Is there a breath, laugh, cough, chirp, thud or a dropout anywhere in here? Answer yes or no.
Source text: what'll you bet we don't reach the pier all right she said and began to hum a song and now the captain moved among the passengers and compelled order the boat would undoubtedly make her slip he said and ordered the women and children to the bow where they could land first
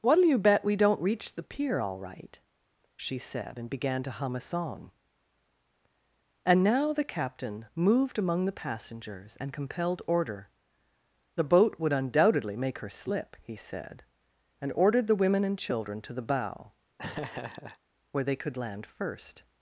yes